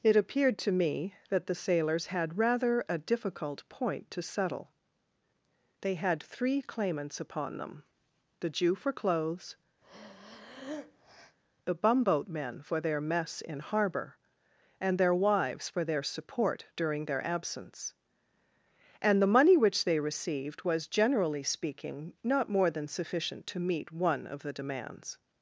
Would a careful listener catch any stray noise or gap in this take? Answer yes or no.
yes